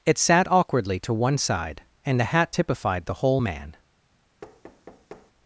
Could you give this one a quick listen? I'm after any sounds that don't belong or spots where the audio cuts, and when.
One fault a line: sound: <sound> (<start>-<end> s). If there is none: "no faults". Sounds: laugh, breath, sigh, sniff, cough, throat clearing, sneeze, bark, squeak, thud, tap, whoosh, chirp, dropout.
sound: thud (4.4-5.3 s)